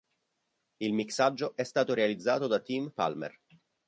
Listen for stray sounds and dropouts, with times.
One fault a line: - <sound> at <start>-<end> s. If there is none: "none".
none